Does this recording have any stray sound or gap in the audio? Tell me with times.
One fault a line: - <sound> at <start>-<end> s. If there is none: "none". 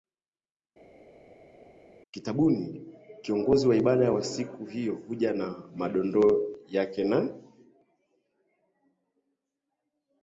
none